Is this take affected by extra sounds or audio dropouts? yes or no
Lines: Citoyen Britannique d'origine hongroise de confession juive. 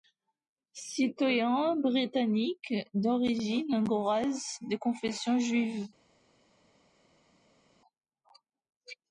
no